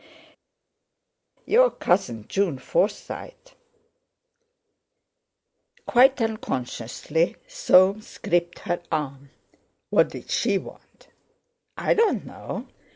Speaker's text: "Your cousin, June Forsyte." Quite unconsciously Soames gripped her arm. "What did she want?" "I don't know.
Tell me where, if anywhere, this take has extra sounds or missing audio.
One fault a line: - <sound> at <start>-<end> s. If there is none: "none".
none